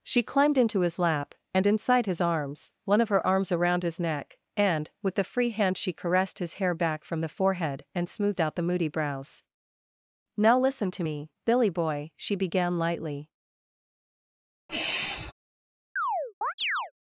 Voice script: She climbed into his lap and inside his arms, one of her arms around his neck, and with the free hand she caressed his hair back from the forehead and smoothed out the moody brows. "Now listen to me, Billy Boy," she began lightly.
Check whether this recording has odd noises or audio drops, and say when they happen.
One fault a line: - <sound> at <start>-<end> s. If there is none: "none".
- sigh at 14.7-15.3 s
- chirp at 16.0-16.9 s